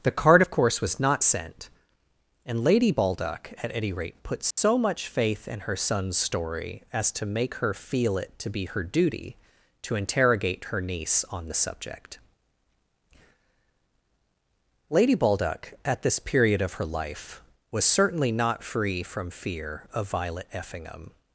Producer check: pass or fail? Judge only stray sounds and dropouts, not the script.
fail